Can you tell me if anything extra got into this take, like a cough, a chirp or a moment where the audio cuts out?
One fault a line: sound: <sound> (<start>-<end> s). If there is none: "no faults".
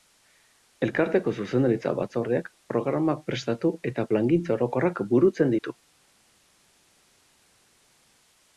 no faults